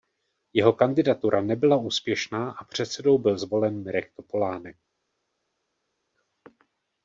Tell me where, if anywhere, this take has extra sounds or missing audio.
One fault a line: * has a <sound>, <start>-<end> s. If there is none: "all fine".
all fine